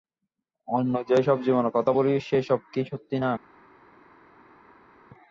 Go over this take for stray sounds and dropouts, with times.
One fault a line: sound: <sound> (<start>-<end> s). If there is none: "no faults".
no faults